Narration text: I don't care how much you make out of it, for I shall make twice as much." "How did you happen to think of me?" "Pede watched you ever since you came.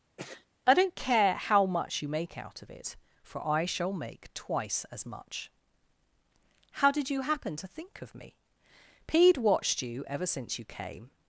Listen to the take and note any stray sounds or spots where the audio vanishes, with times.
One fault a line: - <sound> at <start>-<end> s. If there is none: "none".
- sneeze at 0.2-0.5 s